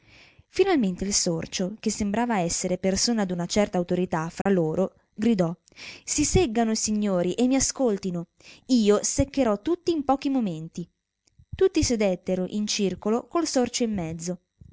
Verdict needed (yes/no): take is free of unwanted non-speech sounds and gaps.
no